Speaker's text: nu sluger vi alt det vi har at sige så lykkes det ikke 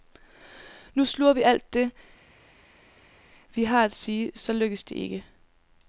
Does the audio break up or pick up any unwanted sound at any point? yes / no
no